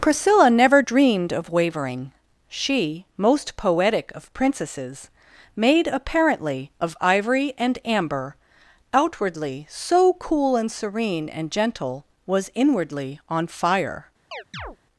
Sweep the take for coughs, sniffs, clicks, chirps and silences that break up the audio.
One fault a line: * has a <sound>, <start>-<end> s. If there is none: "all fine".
* has a chirp, 14.3-14.8 s